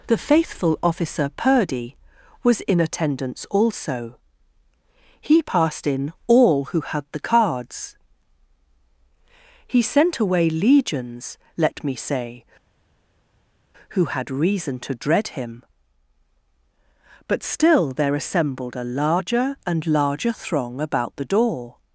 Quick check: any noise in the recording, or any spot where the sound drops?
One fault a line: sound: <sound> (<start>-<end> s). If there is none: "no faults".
no faults